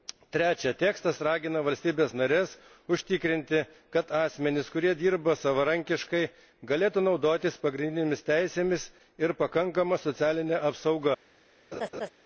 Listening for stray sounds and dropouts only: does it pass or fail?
fail